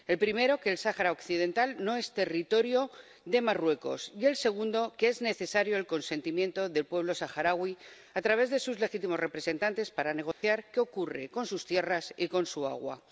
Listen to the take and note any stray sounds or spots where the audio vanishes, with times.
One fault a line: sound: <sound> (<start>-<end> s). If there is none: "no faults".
sound: dropout (10.3-10.4 s)